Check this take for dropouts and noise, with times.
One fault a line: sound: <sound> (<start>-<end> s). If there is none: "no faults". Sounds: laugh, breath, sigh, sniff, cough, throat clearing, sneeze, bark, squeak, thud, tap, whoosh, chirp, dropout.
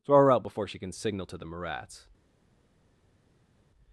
no faults